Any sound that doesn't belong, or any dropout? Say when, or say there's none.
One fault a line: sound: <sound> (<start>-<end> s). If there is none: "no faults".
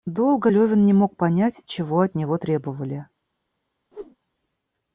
sound: whoosh (3.9-4.2 s)